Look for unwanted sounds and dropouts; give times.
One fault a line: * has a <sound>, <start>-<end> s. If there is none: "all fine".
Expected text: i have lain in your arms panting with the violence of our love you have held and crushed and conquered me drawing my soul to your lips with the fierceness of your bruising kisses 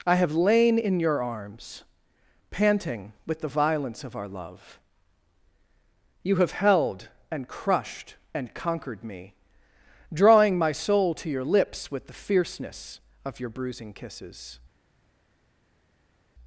all fine